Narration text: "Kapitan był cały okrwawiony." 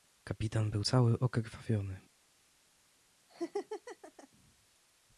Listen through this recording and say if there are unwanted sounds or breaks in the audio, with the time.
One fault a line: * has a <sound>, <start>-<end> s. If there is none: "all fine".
* has a laugh, 3.3-4.3 s